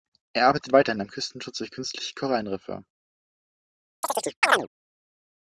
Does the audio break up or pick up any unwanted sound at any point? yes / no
yes